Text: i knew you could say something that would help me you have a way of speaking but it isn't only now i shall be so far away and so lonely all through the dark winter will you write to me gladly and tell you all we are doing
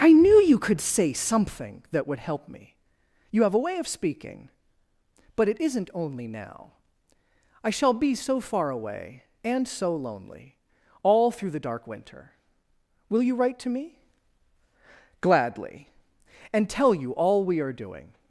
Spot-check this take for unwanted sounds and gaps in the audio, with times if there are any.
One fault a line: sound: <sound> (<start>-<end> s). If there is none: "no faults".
no faults